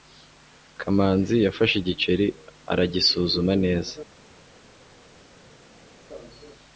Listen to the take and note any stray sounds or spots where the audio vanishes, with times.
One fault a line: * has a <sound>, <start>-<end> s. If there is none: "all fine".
all fine